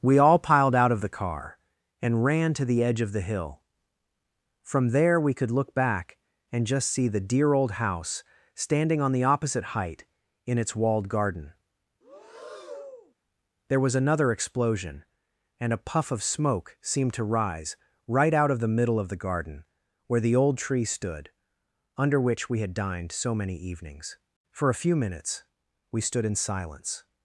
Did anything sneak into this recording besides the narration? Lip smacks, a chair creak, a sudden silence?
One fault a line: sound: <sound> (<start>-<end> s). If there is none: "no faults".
sound: breath (12.0-13.1 s)